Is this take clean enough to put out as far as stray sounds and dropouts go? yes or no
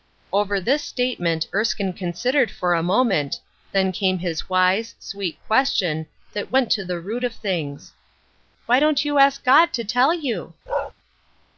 no